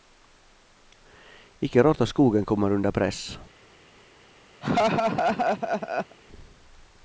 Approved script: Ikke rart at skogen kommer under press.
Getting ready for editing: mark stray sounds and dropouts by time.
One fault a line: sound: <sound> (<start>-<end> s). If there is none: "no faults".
sound: laugh (4.6-6.2 s)